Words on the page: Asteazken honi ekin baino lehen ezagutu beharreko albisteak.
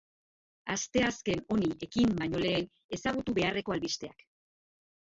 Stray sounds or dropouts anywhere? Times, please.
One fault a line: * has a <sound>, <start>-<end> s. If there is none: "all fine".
all fine